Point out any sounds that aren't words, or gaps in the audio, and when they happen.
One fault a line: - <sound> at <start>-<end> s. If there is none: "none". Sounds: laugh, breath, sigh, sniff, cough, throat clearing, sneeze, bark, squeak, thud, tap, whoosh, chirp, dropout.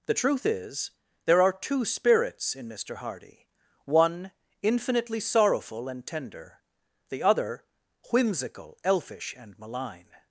none